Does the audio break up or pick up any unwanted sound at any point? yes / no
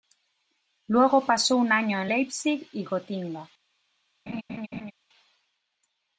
yes